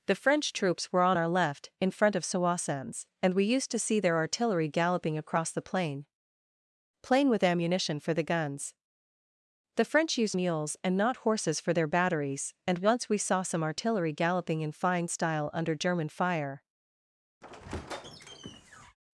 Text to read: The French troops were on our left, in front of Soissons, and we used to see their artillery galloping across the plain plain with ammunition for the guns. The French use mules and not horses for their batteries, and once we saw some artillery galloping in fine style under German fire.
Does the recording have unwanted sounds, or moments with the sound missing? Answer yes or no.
yes